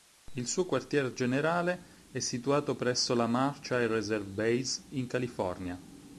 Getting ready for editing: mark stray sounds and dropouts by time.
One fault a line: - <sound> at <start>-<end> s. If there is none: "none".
none